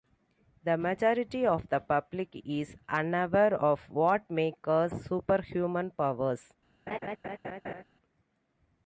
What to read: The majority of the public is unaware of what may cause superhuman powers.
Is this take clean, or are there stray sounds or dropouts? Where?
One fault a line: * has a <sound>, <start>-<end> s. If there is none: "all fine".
* has a laugh, 6.9-7.8 s